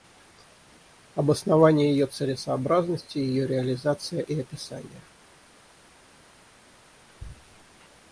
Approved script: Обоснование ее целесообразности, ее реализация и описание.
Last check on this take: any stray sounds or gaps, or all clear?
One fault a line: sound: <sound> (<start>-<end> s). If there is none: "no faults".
no faults